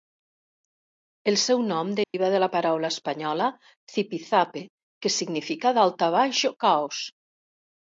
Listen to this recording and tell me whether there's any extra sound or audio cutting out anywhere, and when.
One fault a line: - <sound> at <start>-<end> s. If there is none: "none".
- dropout at 2.0-2.1 s